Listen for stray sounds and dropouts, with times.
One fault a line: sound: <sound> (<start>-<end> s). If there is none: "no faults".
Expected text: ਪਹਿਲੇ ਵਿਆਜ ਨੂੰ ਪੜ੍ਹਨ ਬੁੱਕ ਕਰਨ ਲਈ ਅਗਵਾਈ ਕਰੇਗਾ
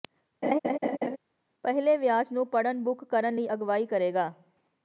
sound: laugh (0.4-1.2 s)